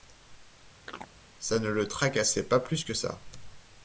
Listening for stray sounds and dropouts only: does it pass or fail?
fail